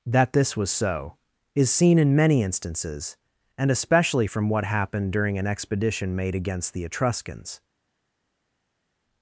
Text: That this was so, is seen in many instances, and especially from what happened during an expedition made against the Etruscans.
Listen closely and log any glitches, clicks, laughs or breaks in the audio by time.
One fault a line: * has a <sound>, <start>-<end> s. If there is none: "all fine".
all fine